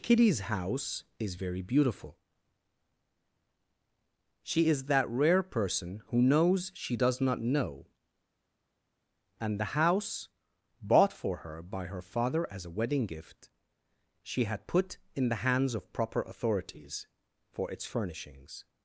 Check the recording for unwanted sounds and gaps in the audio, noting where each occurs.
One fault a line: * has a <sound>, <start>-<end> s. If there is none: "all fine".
all fine